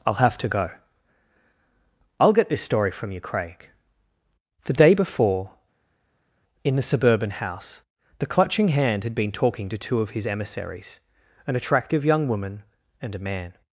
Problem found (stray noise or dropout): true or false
false